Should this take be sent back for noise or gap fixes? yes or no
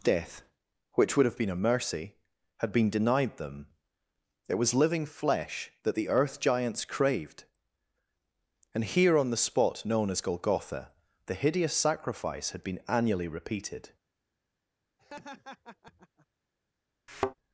yes